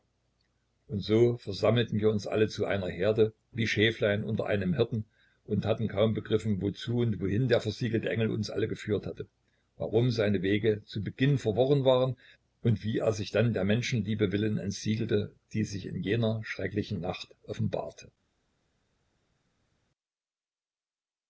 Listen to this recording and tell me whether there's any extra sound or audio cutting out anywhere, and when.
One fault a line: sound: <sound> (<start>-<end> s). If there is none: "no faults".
no faults